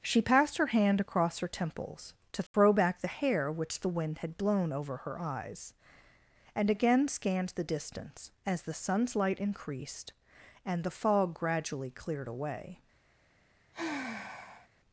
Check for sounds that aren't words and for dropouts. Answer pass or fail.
fail